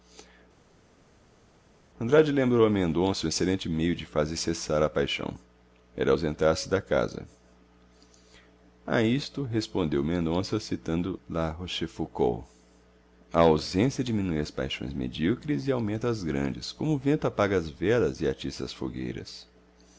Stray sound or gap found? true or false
false